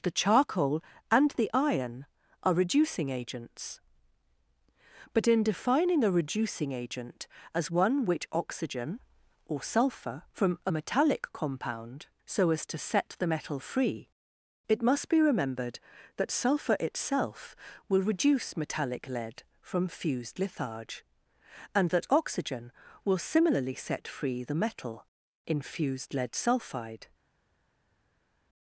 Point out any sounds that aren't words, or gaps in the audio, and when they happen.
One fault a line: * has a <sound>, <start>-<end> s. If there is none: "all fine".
all fine